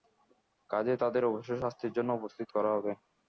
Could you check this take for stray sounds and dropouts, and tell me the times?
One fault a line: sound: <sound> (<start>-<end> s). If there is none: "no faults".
no faults